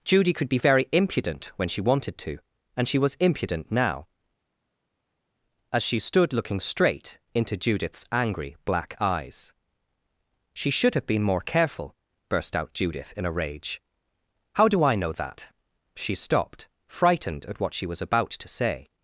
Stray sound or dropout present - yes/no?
no